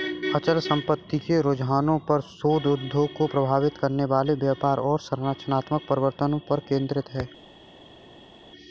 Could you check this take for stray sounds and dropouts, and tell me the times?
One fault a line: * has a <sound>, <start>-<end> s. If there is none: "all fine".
all fine